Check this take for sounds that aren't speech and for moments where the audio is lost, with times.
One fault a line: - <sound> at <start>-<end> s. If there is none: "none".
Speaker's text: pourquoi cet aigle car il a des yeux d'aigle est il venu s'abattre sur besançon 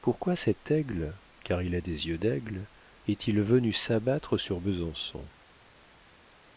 none